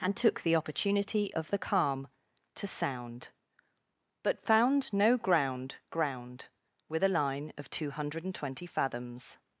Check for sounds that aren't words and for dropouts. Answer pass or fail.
pass